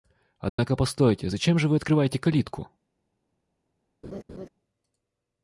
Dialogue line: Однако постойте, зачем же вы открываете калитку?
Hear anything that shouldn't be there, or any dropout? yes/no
yes